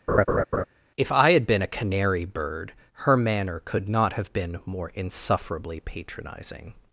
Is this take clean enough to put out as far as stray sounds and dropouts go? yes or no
no